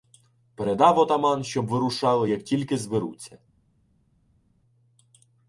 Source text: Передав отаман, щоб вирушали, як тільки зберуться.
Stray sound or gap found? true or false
false